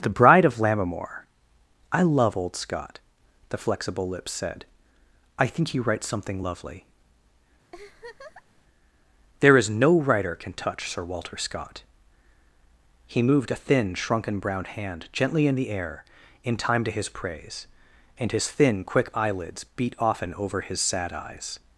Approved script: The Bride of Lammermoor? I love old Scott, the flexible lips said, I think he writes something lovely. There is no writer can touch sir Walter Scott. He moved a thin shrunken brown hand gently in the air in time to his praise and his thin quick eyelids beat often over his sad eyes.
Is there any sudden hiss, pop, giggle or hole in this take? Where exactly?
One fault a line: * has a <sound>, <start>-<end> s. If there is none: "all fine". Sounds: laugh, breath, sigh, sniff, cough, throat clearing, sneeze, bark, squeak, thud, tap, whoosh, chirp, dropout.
* has a laugh, 7.7-8.6 s